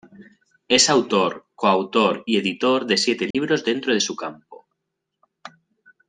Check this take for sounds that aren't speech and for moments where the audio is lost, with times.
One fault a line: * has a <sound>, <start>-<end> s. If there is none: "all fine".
* has a dropout, 3.3-3.3 s